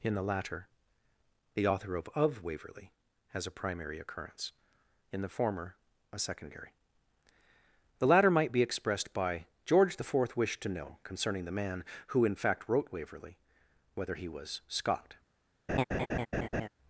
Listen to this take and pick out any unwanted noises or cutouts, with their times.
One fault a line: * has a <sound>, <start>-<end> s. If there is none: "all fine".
* has a laugh, 15.7-16.7 s